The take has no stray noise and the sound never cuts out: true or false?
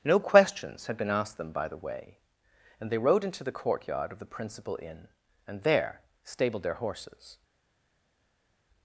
true